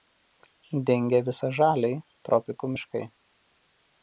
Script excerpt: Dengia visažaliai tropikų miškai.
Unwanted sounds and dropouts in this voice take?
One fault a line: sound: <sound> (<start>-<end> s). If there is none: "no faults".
no faults